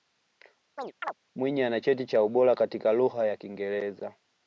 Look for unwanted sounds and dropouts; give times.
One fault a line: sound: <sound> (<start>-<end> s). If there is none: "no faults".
sound: chirp (0.8-1.1 s)